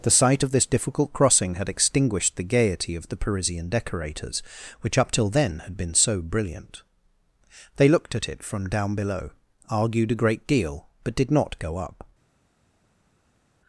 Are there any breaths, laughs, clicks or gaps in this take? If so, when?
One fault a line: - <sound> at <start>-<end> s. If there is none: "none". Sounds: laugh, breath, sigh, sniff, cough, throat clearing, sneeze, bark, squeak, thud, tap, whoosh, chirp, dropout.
none